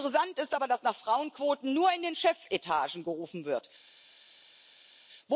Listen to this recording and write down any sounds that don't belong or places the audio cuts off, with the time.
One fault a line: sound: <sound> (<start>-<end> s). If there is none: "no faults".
no faults